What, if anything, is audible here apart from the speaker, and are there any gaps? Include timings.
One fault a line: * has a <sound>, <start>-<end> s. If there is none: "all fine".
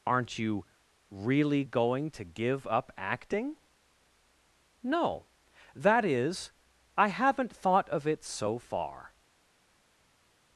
all fine